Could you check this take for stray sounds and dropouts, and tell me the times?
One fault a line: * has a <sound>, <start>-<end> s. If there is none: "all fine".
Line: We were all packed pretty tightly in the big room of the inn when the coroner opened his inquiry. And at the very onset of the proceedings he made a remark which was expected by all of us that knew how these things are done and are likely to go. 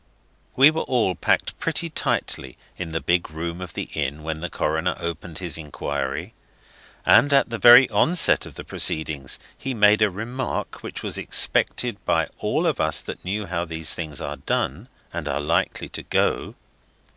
all fine